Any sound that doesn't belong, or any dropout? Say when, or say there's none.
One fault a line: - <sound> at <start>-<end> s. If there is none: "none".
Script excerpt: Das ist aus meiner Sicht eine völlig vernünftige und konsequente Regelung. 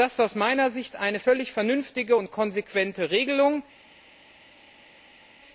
none